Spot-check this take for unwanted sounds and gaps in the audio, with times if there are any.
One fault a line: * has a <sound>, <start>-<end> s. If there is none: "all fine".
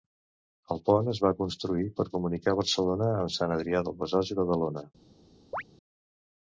* has a chirp, 5.5-5.6 s